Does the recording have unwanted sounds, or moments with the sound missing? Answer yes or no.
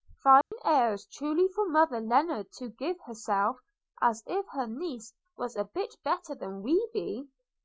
yes